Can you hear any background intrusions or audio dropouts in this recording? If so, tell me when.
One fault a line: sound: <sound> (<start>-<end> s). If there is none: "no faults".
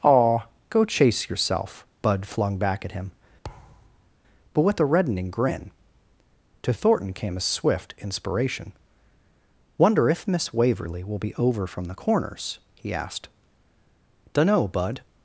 sound: thud (3.4-4.1 s)